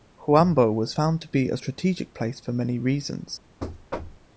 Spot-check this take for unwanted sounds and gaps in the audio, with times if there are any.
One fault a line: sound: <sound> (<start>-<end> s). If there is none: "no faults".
sound: thud (3.6-4.3 s)